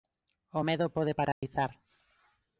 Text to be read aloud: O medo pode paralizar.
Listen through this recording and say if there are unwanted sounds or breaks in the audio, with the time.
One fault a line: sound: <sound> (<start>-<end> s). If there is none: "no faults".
sound: dropout (1.3-1.4 s)